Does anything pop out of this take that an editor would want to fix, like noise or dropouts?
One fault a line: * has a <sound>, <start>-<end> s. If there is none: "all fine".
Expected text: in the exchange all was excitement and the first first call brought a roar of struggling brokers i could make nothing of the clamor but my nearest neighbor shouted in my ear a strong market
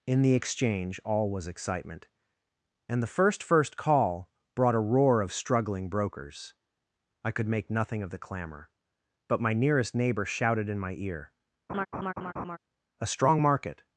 * has a laugh, 11.7-12.6 s